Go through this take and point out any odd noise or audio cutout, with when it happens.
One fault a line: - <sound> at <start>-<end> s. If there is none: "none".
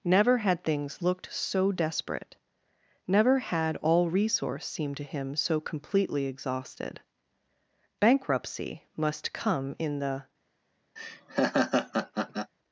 - laugh at 11.0-12.5 s